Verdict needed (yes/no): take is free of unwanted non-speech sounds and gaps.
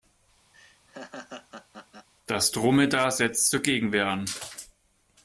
no